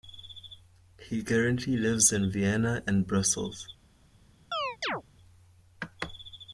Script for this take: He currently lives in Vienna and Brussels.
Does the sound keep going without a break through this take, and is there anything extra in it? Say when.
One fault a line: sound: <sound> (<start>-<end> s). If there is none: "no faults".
sound: chirp (4.5-5.0 s)